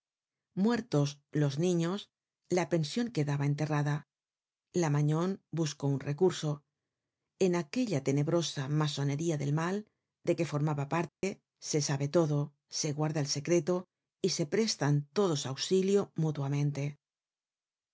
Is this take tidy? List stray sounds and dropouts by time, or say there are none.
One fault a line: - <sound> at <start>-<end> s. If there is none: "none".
- dropout at 11.1-11.2 s